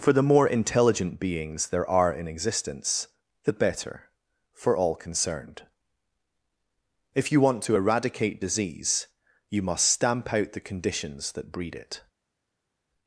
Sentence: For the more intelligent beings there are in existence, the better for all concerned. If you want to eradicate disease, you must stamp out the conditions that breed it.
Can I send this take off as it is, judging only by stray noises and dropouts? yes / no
yes